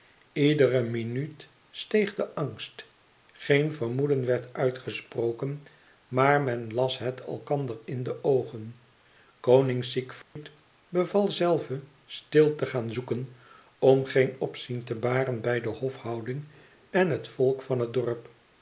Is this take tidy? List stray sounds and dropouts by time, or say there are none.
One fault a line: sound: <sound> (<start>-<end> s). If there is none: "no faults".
sound: dropout (10.2-10.4 s)